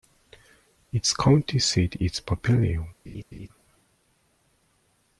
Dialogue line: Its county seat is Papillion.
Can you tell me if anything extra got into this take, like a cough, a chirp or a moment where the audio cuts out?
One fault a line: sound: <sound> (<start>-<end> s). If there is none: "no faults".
sound: laugh (3.1-3.5 s)